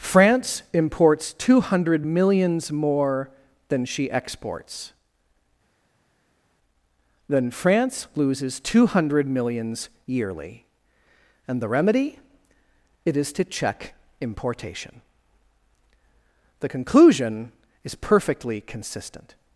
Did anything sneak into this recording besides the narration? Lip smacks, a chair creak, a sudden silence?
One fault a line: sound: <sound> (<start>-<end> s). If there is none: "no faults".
no faults